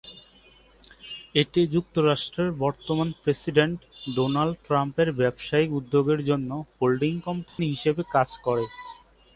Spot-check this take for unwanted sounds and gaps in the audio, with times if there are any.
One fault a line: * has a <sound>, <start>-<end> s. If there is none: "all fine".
* has a dropout, 7.5-7.6 s